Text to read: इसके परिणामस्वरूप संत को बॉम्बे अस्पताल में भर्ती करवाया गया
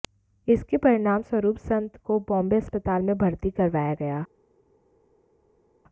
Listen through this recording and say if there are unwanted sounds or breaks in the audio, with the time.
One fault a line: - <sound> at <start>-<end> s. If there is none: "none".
none